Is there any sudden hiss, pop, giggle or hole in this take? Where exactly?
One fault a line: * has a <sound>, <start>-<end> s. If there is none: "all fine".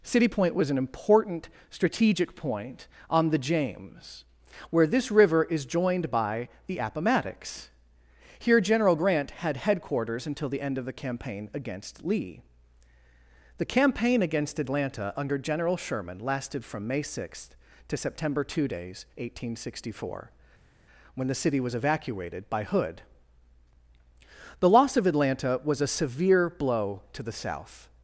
all fine